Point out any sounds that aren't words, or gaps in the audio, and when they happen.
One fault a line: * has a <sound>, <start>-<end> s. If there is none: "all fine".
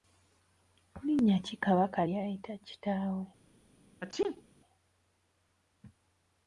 * has a sneeze, 4.0-4.4 s